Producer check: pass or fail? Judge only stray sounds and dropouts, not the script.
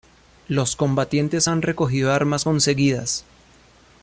pass